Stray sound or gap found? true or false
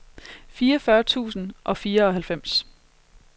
false